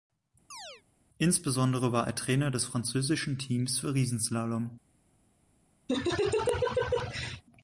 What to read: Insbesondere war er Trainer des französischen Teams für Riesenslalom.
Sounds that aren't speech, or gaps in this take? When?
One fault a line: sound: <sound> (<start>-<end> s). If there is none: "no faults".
sound: chirp (0.5-0.8 s)
sound: laugh (5.9-7.4 s)